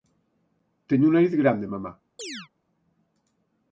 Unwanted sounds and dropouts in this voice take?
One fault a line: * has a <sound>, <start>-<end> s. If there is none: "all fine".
* has a chirp, 2.2-2.5 s